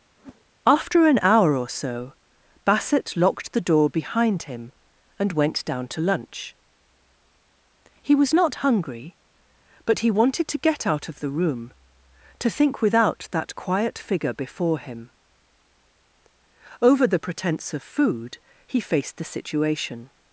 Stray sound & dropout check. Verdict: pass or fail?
fail